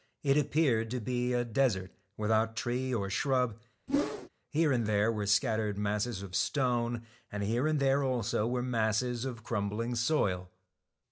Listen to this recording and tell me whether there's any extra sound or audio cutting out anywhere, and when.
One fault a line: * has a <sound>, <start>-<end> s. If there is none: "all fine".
* has a whoosh, 3.9-4.3 s